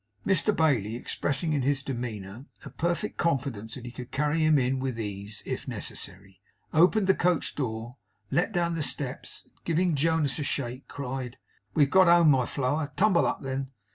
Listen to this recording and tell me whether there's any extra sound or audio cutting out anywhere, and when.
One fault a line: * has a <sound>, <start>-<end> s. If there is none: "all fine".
all fine